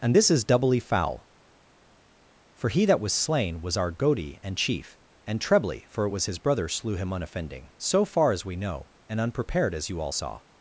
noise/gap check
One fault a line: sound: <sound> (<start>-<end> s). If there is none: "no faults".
no faults